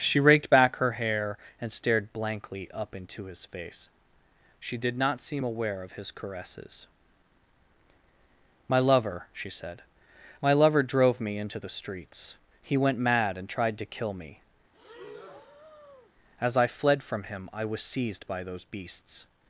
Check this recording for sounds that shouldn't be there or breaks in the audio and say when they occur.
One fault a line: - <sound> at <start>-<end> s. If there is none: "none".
- breath at 14.7-16.1 s